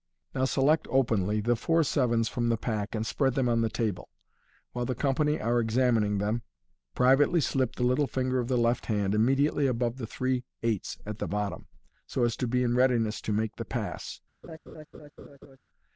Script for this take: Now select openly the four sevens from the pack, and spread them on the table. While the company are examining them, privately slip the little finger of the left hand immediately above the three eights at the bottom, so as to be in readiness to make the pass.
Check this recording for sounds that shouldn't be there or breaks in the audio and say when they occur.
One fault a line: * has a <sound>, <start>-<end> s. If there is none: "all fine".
* has a laugh, 14.4-15.6 s